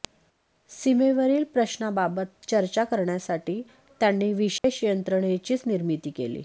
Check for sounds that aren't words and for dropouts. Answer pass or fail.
fail